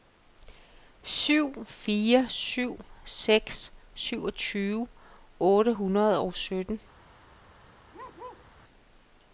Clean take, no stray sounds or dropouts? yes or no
no